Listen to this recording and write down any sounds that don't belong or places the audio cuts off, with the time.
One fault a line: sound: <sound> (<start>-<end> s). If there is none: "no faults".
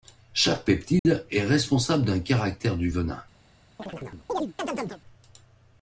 sound: dropout (1.0-1.1 s)
sound: chirp (3.8-5.0 s)